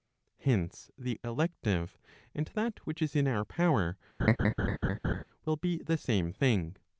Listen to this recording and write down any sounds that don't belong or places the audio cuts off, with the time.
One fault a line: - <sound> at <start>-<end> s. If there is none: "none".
- laugh at 4.2-5.2 s